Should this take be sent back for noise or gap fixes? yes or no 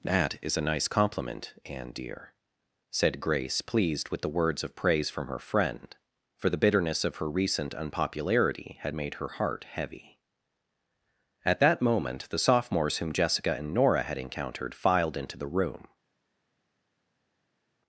no